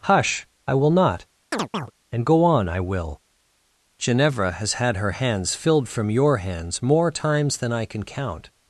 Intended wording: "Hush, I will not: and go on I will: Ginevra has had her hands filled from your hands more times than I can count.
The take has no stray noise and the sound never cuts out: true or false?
false